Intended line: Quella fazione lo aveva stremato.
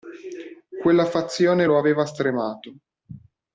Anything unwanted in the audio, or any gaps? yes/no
no